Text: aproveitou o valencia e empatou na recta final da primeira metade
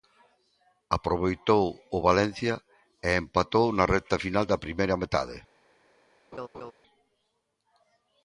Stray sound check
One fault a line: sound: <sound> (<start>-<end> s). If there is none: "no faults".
sound: laugh (6.3-6.7 s)